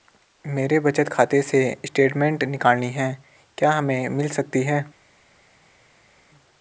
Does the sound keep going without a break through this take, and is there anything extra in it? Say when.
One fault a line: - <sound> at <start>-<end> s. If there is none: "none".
none